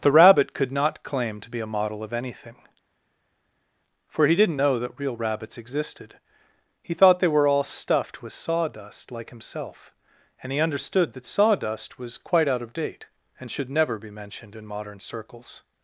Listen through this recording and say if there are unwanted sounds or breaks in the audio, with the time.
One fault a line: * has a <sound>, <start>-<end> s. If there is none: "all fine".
all fine